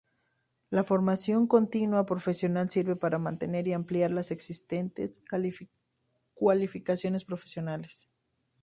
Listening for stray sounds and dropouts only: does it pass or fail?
pass